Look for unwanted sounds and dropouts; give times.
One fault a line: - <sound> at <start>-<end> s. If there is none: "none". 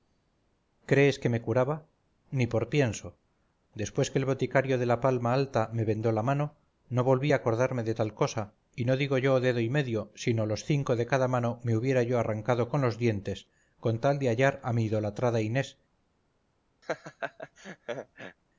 - laugh at 16.8-18.4 s